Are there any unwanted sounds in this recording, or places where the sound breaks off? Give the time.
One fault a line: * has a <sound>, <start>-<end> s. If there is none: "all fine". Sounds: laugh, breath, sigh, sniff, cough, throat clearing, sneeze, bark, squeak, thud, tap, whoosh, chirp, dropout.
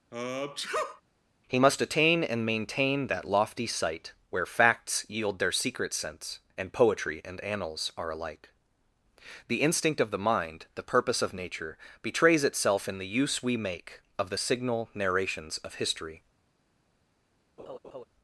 * has a sneeze, 0.1-1.0 s
* has a laugh, 17.6-18.1 s